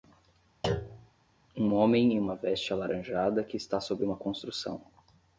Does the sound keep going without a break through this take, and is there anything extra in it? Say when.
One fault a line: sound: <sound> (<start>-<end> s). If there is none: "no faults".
sound: thud (0.6-1.1 s)